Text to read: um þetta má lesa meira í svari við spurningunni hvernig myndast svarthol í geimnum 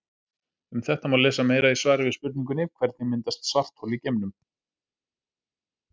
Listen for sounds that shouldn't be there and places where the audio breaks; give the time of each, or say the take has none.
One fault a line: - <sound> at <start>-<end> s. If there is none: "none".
none